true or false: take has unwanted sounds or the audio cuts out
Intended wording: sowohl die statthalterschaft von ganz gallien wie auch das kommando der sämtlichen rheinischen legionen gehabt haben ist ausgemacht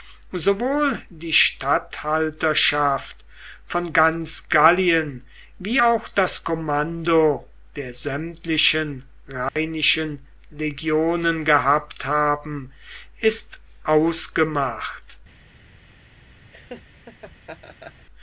true